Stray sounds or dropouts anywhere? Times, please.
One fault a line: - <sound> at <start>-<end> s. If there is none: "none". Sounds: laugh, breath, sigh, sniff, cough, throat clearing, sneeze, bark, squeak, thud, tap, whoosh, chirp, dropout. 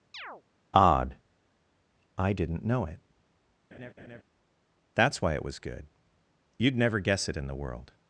- chirp at 0.1-0.4 s
- laugh at 3.7-4.2 s